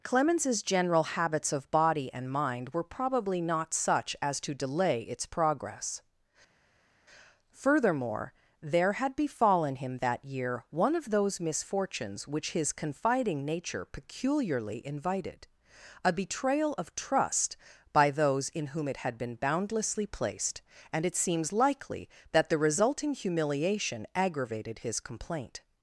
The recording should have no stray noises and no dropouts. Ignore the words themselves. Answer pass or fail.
pass